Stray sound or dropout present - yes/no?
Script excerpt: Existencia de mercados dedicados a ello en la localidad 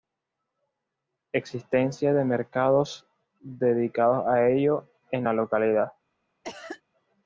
yes